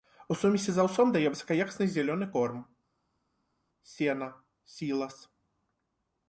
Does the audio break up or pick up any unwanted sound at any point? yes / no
no